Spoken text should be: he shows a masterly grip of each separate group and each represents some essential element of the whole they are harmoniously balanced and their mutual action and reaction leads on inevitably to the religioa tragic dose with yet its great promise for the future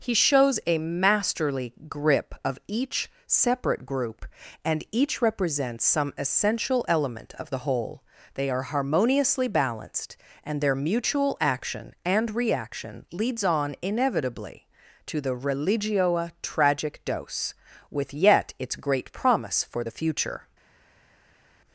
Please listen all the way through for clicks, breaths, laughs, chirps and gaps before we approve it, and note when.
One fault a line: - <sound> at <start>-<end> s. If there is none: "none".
none